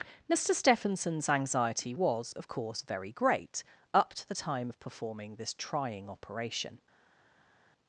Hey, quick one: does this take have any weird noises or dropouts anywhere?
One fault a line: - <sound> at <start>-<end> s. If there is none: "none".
none